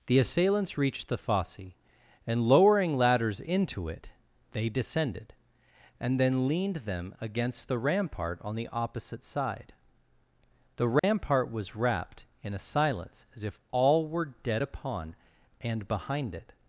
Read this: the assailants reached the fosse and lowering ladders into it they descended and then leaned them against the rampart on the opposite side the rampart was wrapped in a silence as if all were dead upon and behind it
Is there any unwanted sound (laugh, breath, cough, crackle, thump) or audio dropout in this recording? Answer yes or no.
yes